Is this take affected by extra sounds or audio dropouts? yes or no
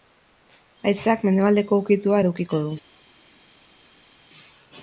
no